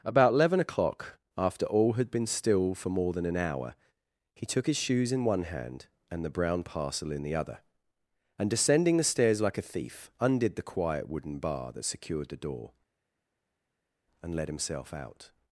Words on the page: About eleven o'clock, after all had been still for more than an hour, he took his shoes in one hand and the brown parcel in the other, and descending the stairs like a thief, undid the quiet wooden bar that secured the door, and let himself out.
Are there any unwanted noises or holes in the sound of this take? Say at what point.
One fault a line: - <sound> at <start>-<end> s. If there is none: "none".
none